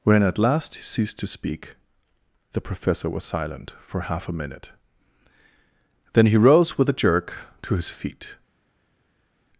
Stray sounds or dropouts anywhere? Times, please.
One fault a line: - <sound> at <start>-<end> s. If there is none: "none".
none